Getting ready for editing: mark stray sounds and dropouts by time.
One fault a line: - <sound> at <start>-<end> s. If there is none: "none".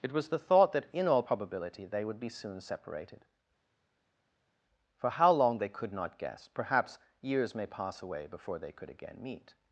none